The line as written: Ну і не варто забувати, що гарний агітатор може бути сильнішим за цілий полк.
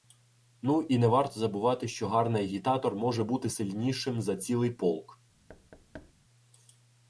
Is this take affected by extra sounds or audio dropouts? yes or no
yes